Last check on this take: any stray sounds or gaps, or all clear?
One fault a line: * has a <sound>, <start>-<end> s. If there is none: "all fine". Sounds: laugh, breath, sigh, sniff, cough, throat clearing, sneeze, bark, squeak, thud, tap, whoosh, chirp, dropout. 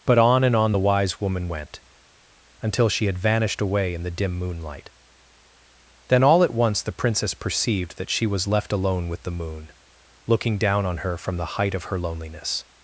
all fine